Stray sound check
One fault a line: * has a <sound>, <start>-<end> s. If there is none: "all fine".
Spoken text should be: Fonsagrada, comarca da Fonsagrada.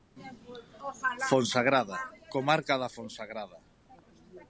all fine